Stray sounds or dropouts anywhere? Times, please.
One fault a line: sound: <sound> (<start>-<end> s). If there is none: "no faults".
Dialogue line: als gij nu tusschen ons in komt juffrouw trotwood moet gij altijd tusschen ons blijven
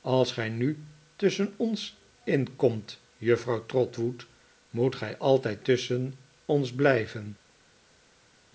no faults